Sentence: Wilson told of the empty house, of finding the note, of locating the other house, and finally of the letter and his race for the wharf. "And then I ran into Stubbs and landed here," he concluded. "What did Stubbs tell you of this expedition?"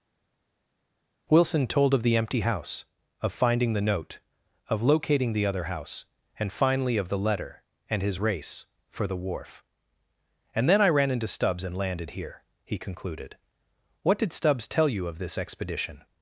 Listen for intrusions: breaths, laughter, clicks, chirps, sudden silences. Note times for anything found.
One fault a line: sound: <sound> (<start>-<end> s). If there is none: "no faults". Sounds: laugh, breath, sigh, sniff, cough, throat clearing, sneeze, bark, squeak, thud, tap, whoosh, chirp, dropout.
no faults